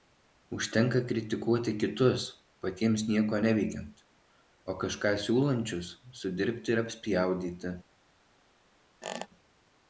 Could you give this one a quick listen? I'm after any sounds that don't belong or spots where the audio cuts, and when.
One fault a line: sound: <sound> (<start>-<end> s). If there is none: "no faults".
sound: squeak (9.0-9.3 s)